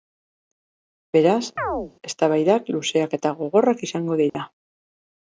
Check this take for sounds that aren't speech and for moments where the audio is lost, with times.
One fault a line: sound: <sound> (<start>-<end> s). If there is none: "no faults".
sound: chirp (1.6-1.9 s)
sound: dropout (4.3-4.4 s)